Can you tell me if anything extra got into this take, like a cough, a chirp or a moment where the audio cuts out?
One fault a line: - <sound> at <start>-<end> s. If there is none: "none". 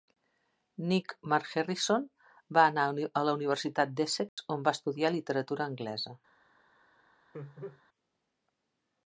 - dropout at 4.3-4.4 s
- laugh at 7.3-7.8 s